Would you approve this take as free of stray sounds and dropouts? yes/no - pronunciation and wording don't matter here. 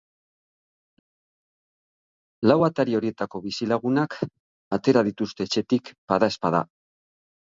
yes